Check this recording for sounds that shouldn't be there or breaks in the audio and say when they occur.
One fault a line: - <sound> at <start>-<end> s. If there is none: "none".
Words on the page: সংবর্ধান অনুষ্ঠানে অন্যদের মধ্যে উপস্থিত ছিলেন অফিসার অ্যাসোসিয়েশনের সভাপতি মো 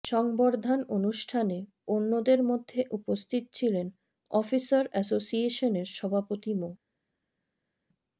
none